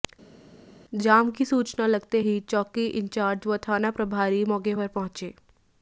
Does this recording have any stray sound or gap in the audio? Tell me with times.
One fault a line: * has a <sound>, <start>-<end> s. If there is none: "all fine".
all fine